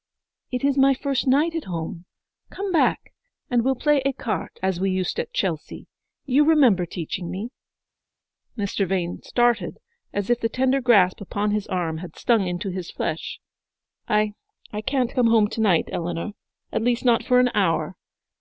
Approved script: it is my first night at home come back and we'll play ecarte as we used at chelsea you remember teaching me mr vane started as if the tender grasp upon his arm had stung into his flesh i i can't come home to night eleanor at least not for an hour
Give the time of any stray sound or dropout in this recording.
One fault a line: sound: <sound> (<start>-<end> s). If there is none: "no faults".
no faults